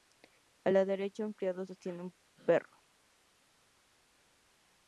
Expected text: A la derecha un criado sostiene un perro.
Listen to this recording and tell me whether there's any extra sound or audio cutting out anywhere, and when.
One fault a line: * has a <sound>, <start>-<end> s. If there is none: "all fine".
all fine